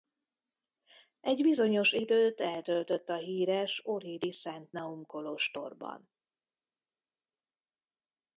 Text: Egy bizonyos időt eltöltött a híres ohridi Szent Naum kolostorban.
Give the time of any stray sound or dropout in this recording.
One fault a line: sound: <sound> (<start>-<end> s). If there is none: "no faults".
no faults